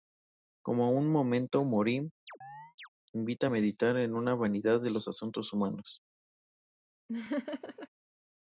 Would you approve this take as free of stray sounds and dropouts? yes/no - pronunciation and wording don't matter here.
no